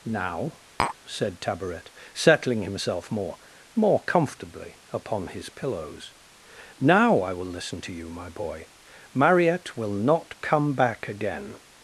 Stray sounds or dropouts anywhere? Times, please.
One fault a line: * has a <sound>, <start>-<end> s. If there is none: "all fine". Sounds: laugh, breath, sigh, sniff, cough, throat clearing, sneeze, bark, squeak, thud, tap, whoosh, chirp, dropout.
* has a tap, 0.8-1.0 s